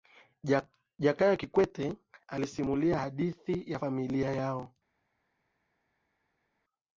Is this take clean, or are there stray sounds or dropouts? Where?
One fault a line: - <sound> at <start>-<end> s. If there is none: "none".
none